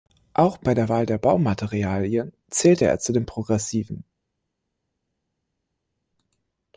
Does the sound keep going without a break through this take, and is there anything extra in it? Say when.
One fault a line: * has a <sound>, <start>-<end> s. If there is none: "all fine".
all fine